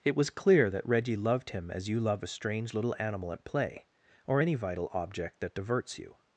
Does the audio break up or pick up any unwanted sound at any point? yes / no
no